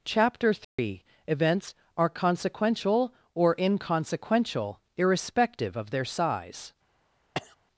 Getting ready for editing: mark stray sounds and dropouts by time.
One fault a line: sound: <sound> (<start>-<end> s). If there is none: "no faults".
sound: dropout (0.6-0.8 s)
sound: cough (7.3-7.6 s)